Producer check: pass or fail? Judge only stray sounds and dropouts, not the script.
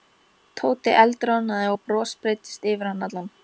pass